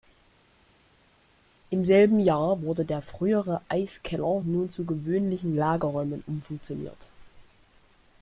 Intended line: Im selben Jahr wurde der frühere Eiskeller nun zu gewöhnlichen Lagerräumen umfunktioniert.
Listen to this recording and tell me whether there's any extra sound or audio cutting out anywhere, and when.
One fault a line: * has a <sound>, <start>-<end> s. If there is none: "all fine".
all fine